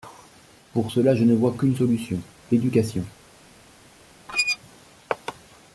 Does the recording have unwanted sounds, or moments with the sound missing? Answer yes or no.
yes